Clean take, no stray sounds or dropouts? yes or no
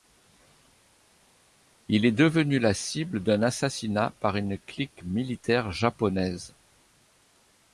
yes